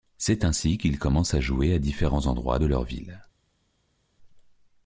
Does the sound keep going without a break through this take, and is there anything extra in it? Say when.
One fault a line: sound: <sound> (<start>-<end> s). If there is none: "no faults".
no faults